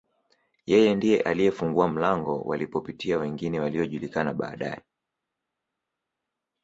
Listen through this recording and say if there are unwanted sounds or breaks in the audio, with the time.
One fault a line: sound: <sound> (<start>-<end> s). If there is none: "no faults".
no faults